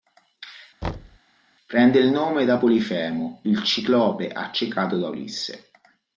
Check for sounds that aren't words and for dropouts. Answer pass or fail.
fail